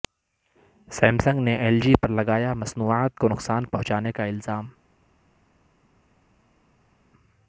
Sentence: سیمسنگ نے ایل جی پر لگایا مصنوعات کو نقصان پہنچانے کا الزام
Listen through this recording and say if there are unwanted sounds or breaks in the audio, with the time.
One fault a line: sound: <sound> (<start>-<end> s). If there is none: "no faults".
no faults